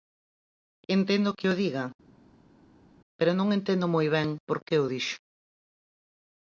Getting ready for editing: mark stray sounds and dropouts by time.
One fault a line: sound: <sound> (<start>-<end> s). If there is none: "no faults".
no faults